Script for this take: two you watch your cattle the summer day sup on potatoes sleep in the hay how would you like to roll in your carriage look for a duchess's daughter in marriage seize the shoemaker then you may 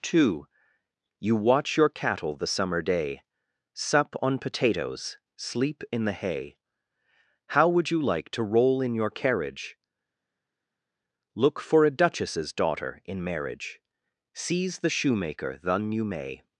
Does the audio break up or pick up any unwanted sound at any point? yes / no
no